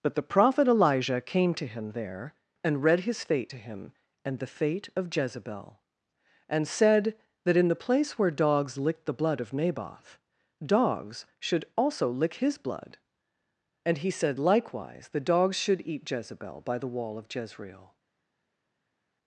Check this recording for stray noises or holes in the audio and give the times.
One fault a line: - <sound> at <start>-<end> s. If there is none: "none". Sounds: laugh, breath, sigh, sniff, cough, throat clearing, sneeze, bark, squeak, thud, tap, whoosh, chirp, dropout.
none